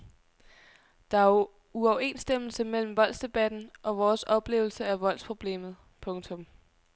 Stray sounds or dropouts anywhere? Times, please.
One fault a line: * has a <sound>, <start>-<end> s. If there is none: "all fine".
all fine